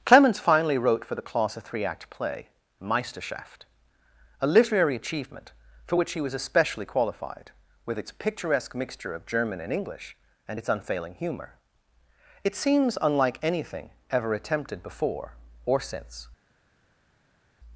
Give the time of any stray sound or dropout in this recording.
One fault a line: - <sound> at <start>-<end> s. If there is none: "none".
none